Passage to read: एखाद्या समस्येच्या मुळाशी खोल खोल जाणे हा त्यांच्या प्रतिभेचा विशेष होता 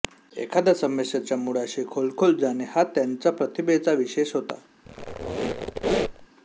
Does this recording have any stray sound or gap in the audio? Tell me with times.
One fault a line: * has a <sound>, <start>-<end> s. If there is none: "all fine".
* has a squeak, 4.8-6.3 s